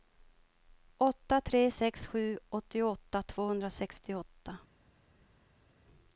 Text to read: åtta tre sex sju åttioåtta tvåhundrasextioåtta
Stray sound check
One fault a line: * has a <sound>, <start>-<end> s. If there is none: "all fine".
all fine